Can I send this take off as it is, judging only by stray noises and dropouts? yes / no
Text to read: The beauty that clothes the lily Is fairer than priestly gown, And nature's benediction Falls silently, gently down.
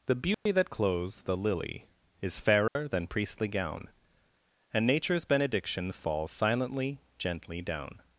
no